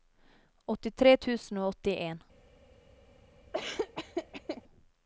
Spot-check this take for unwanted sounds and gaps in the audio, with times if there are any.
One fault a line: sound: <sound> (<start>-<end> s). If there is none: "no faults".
sound: laugh (3.5-4.6 s)